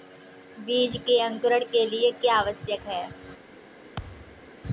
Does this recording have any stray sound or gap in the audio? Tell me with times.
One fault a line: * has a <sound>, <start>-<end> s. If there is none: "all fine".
* has a thud, 4.0-4.5 s